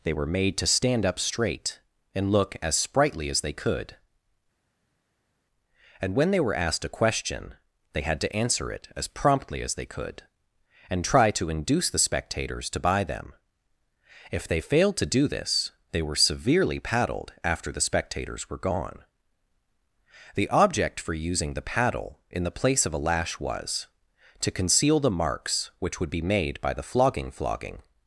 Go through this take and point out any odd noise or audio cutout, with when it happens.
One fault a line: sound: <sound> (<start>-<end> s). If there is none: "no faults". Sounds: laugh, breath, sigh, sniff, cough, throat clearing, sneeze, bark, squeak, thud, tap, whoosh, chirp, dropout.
no faults